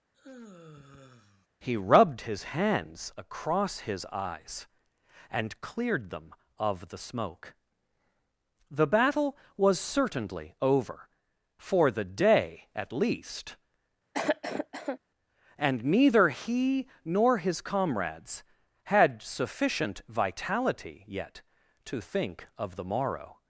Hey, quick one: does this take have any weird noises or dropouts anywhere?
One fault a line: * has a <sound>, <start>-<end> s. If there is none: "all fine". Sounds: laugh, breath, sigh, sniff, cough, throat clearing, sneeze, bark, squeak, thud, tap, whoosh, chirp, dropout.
* has a sigh, 0.1-1.5 s
* has a cough, 14.1-15.0 s